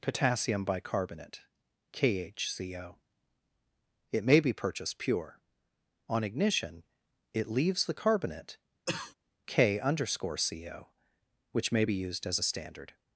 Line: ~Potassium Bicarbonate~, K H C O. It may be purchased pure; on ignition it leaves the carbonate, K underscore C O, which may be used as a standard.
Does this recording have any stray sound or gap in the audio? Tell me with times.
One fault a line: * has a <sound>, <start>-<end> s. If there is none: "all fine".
* has a cough, 8.9-9.1 s